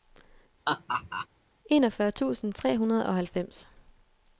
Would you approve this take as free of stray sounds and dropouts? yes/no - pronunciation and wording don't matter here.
no